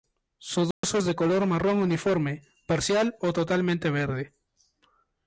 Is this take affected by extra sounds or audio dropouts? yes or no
yes